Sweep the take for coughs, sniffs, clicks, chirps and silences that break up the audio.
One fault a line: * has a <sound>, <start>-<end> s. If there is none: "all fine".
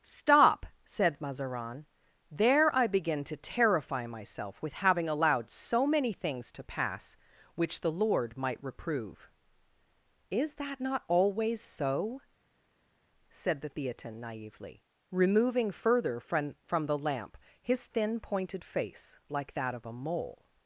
all fine